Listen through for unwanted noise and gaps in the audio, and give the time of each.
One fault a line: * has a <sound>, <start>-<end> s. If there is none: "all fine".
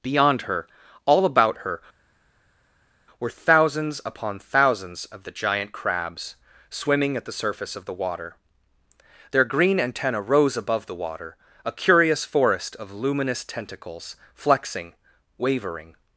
all fine